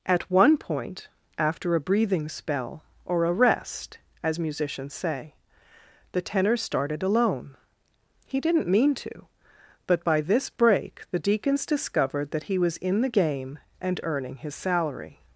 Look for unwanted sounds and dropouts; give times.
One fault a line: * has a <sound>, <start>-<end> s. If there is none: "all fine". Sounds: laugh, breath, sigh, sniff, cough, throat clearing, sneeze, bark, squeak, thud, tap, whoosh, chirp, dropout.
all fine